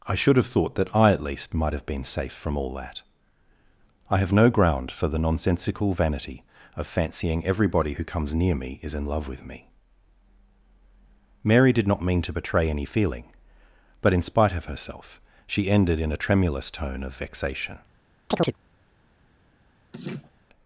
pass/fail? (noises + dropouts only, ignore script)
fail